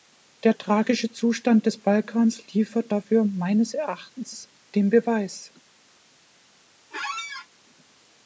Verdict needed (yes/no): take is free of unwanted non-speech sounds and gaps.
no